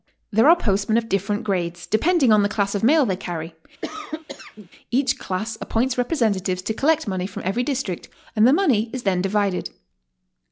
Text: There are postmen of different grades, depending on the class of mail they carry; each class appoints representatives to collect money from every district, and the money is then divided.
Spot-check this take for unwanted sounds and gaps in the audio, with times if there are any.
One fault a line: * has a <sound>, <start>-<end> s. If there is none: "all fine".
* has a cough, 3.8-4.7 s